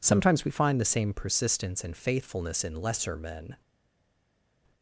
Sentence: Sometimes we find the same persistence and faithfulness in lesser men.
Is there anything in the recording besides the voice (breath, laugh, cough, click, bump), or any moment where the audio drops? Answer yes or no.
no